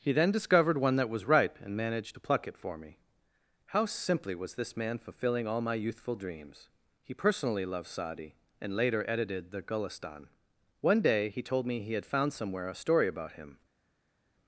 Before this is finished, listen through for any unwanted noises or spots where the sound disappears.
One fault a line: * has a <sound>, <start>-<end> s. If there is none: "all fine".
all fine